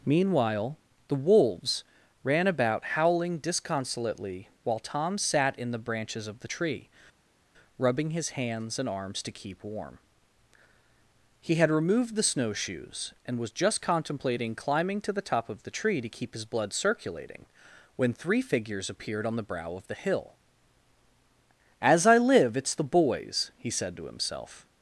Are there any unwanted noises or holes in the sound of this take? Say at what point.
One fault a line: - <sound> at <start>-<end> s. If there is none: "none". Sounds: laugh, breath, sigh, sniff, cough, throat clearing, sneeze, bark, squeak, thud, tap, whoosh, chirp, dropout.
none